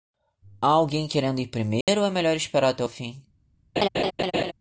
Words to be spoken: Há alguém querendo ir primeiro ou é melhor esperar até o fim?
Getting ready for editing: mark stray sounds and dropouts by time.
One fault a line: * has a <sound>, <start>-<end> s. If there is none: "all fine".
* has a dropout, 1.8-1.9 s
* has a laugh, 3.8-4.5 s